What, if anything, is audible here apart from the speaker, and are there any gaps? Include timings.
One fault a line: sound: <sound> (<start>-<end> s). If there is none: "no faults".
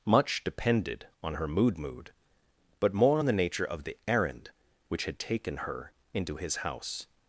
no faults